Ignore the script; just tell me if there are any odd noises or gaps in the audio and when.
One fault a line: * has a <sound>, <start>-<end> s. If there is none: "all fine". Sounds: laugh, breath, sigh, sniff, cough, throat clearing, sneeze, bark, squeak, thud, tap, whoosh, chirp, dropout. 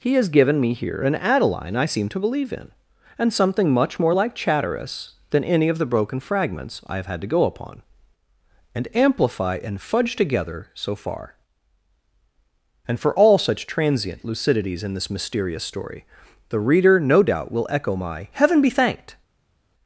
all fine